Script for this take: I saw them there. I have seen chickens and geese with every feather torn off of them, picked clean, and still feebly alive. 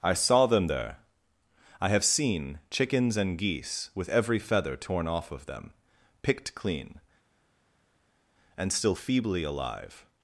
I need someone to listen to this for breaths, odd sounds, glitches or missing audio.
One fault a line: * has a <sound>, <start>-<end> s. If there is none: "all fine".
all fine